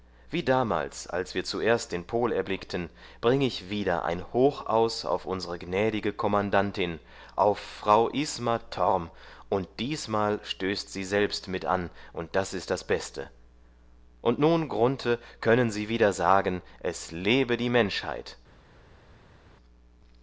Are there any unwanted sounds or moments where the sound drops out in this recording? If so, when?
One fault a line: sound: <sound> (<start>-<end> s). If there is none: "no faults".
no faults